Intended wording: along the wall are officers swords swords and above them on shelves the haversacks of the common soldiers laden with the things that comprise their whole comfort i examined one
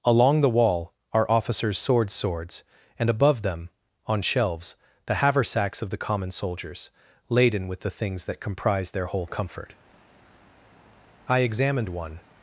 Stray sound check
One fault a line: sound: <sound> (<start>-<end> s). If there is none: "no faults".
no faults